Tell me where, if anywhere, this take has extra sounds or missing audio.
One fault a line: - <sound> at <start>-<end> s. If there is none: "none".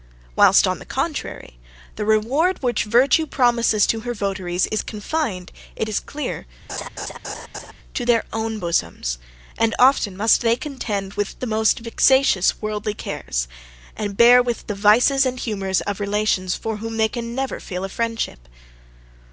- laugh at 6.7-7.7 s